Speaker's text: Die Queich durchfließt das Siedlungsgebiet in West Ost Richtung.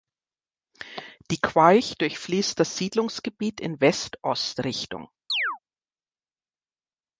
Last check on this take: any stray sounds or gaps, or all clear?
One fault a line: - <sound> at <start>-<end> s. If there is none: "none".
- chirp at 5.3-5.6 s